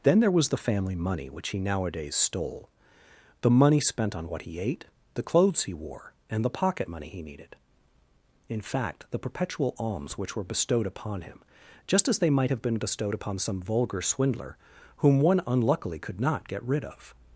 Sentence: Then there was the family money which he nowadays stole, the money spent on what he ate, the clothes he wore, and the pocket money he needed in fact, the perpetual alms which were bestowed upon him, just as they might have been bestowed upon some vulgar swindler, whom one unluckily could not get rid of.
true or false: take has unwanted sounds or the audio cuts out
false